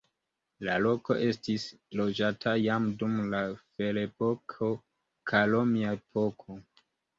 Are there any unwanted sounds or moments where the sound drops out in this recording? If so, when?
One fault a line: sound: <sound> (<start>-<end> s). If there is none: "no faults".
no faults